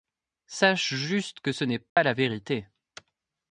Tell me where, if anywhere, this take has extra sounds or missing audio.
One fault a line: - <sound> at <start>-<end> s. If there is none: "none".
- dropout at 1.9-2.0 s